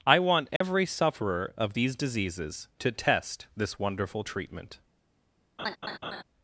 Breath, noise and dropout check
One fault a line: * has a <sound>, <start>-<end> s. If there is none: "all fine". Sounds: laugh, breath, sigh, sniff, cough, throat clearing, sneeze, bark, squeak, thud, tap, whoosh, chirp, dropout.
* has a dropout, 0.6-0.6 s
* has a laugh, 5.6-6.2 s